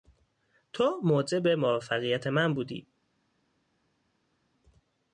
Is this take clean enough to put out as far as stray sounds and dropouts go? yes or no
yes